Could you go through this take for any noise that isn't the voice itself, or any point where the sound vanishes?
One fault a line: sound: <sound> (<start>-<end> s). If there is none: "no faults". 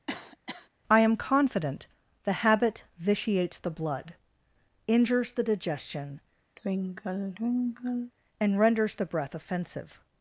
sound: cough (0.1-0.7 s)
sound: sigh (6.6-8.1 s)